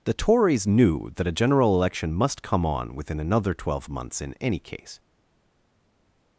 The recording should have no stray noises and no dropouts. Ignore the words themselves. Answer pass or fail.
pass